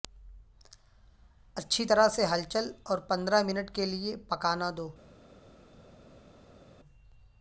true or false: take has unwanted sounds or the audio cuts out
false